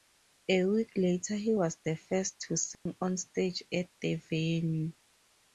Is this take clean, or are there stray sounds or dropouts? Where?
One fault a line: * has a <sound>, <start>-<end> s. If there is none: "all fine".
* has a dropout, 2.7-2.9 s